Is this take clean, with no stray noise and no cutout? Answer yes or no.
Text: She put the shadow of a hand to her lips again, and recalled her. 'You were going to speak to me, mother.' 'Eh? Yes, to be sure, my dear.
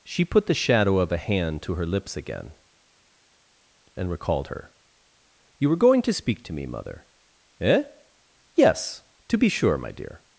yes